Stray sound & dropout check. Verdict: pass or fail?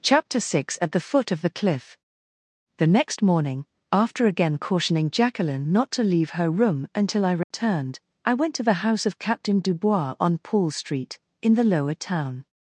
fail